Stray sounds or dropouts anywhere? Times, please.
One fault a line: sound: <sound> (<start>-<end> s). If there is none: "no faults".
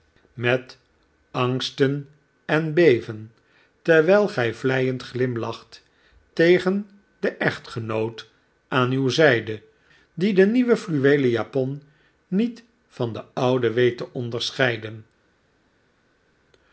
no faults